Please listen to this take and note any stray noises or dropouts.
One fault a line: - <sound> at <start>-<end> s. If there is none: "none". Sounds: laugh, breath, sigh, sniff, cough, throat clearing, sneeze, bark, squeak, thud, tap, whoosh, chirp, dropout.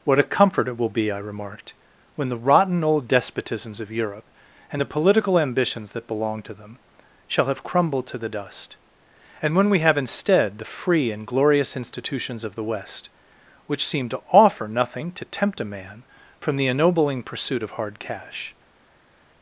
none